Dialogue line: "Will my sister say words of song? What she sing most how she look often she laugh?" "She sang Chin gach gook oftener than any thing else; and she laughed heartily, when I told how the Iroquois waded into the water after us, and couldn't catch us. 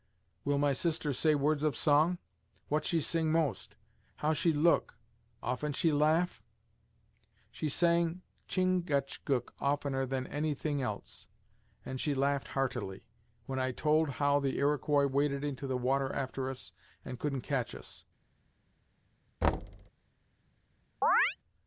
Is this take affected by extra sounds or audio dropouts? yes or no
yes